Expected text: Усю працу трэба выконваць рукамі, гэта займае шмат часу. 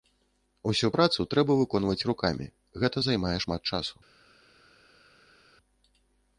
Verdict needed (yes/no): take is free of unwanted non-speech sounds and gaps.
yes